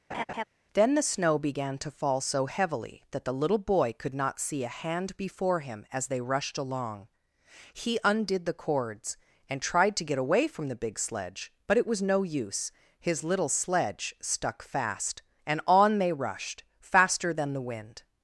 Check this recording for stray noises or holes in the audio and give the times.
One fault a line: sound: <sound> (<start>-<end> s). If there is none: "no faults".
sound: laugh (0.1-0.4 s)